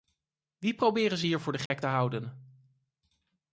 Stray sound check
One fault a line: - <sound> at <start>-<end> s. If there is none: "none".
- dropout at 1.7-1.7 s